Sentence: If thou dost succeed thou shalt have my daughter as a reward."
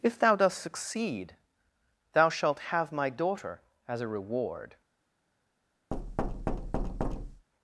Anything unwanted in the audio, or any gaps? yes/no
yes